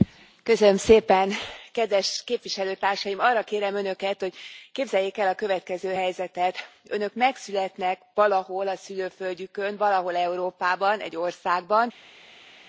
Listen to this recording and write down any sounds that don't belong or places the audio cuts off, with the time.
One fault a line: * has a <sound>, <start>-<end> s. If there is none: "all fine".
all fine